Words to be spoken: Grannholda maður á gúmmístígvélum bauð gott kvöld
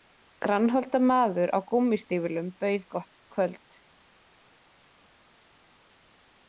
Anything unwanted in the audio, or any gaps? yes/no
no